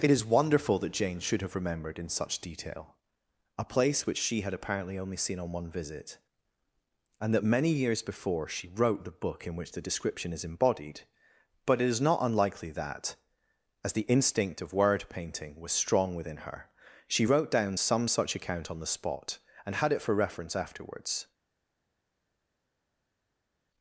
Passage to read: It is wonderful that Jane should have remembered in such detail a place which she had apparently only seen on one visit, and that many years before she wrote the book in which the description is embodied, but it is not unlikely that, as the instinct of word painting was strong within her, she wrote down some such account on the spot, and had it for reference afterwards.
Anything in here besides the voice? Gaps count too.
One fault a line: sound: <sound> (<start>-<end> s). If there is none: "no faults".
no faults